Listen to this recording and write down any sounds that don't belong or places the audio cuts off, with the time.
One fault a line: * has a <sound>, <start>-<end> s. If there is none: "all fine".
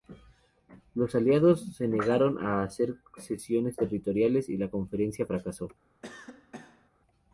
* has a cough, 6.0-6.9 s